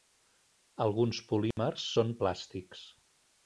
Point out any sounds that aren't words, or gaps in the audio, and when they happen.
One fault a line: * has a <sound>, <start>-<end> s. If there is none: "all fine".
* has a dropout, 1.5-1.6 s